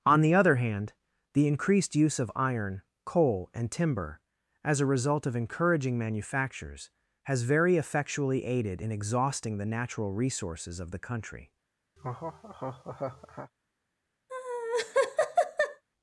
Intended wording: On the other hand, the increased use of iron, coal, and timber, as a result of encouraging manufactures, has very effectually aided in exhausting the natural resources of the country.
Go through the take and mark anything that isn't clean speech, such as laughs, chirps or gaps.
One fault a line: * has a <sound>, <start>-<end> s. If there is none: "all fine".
* has a laugh, 12.0-13.5 s
* has a laugh, 14.3-15.8 s